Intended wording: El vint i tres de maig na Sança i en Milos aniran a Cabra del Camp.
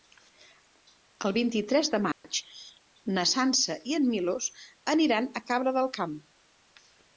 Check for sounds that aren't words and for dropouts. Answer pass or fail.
fail